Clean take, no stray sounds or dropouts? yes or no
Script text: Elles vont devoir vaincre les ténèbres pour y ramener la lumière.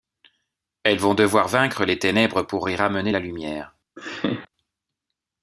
no